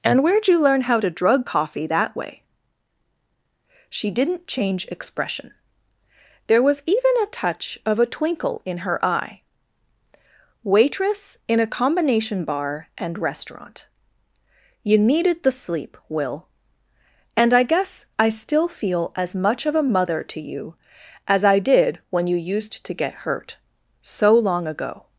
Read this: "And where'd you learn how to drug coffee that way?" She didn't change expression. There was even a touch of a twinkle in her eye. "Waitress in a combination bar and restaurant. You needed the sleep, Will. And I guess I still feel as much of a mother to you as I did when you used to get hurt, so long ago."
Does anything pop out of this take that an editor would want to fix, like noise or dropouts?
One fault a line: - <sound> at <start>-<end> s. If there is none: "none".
none